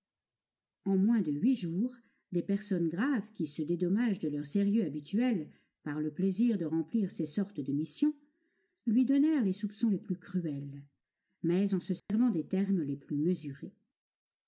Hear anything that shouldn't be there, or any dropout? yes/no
yes